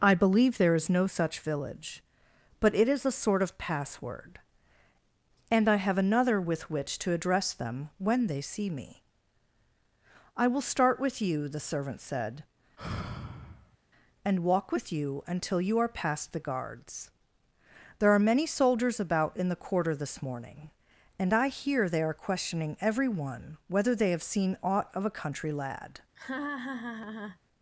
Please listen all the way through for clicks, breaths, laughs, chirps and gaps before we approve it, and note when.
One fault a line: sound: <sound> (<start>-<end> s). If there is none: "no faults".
sound: sigh (12.8-13.8 s)
sound: laugh (26.2-27.4 s)